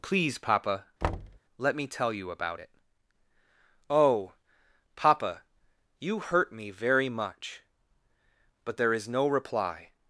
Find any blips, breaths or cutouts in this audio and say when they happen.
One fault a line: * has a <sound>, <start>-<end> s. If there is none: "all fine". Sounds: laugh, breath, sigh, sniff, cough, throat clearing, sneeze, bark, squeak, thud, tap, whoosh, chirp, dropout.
* has a thud, 1.0-1.4 s